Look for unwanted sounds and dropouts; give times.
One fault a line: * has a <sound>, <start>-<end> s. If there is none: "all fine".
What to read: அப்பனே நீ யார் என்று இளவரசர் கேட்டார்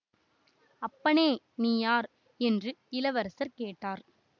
all fine